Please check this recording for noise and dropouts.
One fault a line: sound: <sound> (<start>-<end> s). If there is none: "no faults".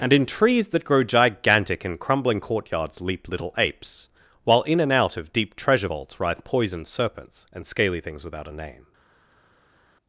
no faults